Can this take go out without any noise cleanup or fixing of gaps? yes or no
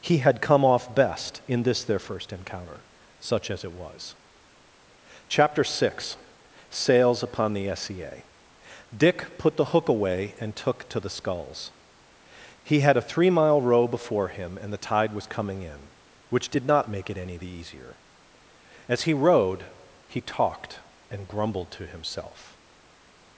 yes